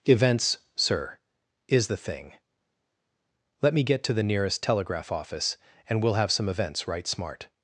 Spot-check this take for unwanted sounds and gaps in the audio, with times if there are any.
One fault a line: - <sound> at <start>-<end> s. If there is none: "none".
none